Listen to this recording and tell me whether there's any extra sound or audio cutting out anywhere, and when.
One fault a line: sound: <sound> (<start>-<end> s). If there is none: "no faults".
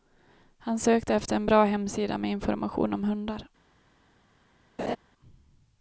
sound: laugh (4.8-5.0 s)